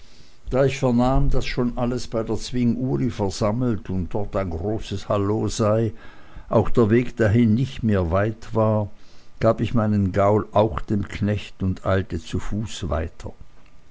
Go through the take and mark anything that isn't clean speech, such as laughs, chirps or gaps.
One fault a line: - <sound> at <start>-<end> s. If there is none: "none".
none